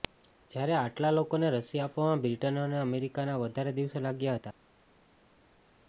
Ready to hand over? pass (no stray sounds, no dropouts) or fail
pass